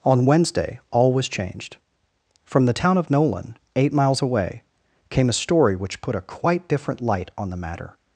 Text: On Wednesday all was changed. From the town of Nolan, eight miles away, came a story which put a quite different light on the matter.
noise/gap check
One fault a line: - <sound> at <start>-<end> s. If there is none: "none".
none